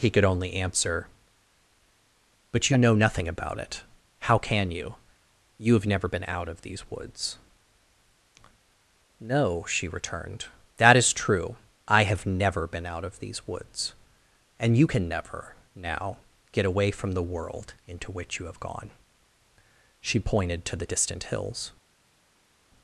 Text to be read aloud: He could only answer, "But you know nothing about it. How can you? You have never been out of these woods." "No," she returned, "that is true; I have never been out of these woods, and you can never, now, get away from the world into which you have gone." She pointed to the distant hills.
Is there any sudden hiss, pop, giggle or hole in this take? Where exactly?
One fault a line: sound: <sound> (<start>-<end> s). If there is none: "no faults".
no faults